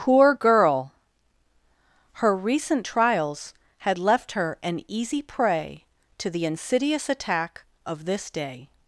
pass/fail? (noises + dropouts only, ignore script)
pass